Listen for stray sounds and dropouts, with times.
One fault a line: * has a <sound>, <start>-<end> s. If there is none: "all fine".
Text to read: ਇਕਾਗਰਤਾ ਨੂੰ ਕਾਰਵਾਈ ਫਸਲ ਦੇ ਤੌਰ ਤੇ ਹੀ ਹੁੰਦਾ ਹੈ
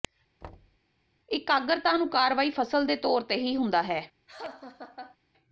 * has a thud, 0.4-0.8 s
* has a laugh, 4.3-5.2 s